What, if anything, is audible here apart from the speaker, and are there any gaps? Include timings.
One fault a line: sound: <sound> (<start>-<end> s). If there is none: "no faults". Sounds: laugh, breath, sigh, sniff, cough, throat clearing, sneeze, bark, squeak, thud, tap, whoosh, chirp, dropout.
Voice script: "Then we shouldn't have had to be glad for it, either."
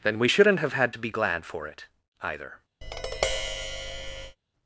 sound: tap (2.8-4.4 s)